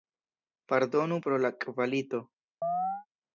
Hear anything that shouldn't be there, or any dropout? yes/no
yes